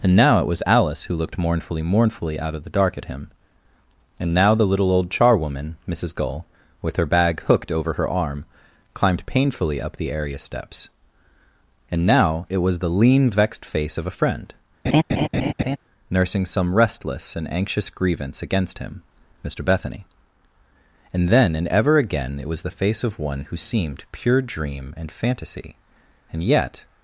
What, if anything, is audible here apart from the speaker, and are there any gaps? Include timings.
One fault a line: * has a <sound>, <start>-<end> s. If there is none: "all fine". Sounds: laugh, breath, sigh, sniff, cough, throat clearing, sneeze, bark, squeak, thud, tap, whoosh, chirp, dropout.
* has a laugh, 14.8-15.8 s